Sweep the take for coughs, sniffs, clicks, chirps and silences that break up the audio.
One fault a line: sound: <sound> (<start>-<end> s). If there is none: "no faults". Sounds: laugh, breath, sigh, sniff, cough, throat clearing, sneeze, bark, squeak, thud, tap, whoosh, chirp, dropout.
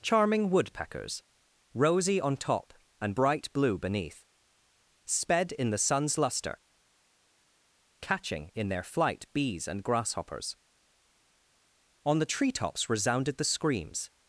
no faults